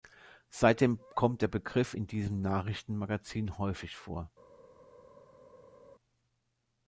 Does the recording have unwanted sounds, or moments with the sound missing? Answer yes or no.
no